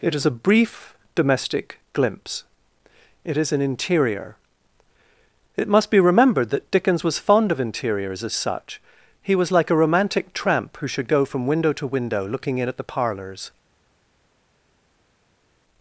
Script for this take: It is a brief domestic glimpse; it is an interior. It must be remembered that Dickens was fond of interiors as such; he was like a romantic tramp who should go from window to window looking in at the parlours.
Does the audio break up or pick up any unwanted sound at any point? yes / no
no